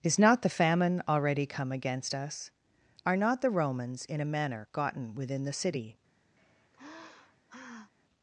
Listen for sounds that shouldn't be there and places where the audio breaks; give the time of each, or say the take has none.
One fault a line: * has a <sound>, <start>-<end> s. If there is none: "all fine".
* has a sigh, 6.4-7.9 s